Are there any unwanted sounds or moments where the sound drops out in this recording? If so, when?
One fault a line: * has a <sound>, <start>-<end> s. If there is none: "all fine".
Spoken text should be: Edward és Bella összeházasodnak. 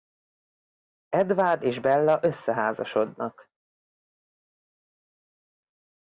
all fine